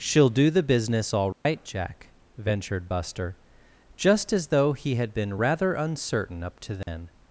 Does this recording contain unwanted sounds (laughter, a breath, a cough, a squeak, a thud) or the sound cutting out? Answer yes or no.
yes